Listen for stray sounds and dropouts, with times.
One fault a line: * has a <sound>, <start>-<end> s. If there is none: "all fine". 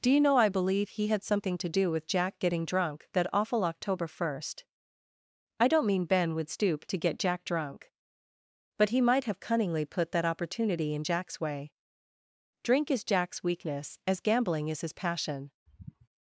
* has a sigh, 15.7-16.1 s